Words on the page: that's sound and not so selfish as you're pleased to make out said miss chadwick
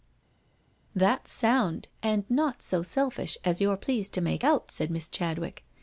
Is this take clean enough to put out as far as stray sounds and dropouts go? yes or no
yes